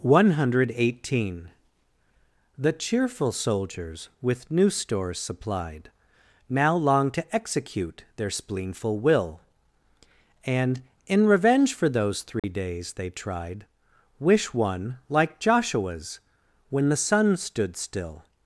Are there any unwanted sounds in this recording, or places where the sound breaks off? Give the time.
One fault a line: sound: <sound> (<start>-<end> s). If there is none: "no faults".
sound: dropout (12.4-12.4 s)